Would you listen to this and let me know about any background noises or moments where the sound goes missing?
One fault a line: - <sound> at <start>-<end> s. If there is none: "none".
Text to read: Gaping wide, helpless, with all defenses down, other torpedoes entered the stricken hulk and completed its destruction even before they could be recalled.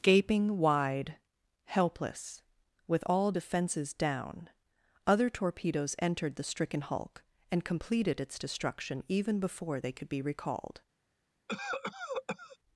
- cough at 11.5-12.6 s